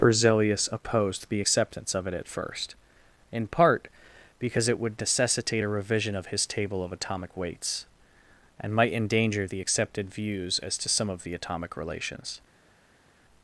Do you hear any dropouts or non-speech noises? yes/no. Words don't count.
no